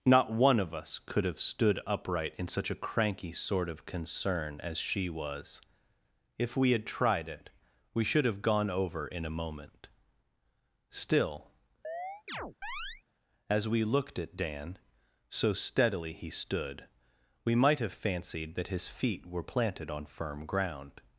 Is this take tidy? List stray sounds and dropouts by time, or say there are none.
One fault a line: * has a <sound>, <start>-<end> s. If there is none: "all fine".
* has a chirp, 11.8-13.0 s